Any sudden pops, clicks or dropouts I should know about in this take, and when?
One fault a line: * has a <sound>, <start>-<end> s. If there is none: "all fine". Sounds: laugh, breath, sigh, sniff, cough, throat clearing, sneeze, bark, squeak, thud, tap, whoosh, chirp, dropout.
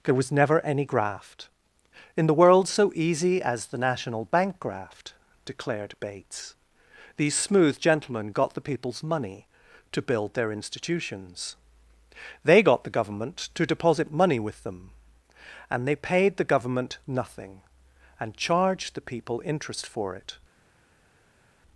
all fine